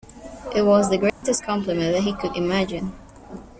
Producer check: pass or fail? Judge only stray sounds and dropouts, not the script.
fail